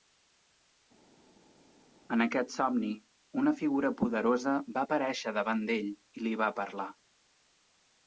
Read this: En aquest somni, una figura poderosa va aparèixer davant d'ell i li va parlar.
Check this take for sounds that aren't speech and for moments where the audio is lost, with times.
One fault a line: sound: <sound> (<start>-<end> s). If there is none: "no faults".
no faults